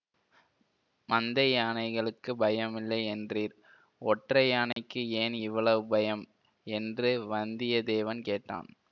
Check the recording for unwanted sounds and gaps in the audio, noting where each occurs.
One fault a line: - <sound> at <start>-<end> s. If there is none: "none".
- dropout at 4.7-4.8 s